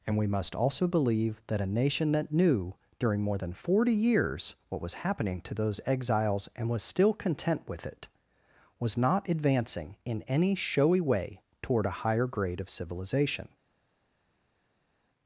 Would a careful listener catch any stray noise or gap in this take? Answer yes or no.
no